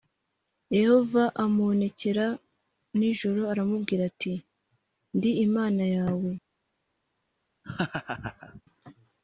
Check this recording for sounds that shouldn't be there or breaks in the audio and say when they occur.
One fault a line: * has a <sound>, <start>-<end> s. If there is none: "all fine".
* has a laugh, 7.6-8.6 s